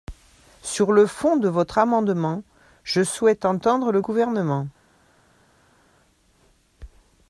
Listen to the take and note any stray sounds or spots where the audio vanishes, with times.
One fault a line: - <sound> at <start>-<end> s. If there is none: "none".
none